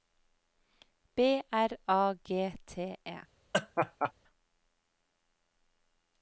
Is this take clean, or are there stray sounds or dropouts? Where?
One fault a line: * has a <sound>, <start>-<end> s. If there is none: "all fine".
* has a laugh, 3.5-4.1 s